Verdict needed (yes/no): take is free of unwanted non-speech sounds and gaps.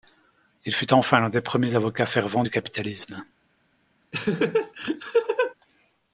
no